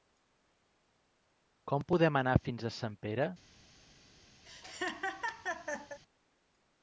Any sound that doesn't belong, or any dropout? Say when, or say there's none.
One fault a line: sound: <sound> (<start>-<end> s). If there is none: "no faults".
sound: laugh (4.4-6.0 s)